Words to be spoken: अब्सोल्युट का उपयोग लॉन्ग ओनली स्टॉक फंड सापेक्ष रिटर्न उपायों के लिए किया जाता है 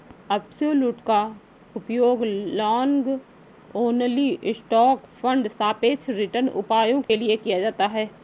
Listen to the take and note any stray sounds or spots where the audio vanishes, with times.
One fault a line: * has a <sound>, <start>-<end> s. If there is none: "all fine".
* has a dropout, 7.0-7.1 s